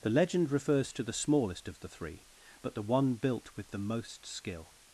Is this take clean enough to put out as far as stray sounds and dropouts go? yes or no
yes